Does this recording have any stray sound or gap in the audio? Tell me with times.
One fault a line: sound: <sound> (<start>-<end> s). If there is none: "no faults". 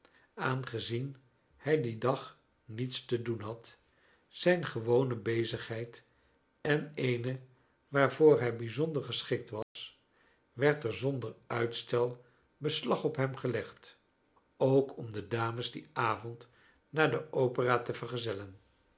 sound: dropout (9.6-9.8 s)